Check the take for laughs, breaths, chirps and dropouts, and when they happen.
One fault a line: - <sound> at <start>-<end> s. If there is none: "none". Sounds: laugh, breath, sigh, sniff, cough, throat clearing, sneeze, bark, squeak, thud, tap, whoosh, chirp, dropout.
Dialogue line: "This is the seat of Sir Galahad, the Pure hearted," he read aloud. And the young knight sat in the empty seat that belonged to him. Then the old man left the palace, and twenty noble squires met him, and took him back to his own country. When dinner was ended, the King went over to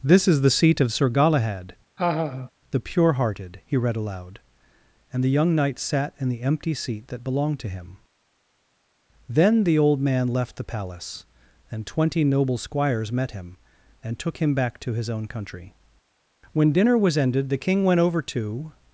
- laugh at 2.0-2.5 s